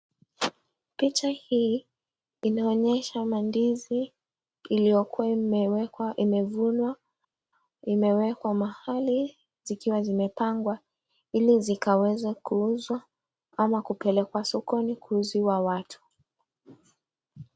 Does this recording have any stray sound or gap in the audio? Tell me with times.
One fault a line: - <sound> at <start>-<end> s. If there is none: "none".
none